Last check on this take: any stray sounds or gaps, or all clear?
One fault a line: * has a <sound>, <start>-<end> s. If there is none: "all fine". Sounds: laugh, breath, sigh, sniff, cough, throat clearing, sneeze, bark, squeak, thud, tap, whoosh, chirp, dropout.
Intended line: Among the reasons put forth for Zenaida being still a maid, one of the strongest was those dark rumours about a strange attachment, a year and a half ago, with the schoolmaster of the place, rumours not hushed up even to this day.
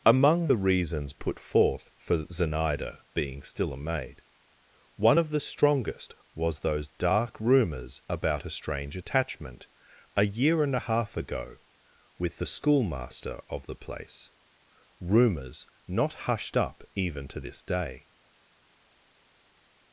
all fine